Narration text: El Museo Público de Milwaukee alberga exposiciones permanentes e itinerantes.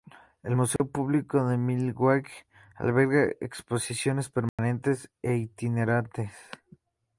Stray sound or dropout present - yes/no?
yes